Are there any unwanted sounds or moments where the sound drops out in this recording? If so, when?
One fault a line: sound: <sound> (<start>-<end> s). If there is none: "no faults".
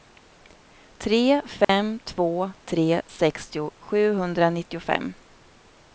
sound: dropout (1.6-1.7 s)